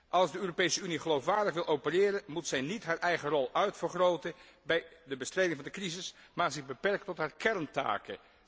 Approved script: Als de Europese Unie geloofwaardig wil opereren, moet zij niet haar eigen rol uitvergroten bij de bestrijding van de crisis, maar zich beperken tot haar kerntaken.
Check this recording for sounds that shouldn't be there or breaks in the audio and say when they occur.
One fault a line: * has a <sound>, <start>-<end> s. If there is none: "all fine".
all fine